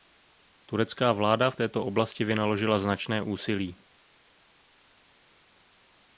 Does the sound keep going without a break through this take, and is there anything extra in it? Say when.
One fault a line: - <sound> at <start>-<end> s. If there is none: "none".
none